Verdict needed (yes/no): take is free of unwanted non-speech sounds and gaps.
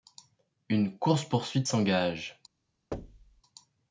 no